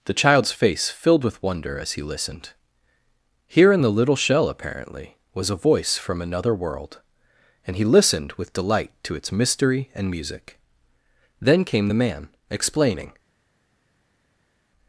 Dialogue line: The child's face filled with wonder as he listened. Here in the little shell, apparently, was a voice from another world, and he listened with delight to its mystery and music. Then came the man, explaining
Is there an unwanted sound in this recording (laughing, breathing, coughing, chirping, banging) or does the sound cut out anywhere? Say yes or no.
no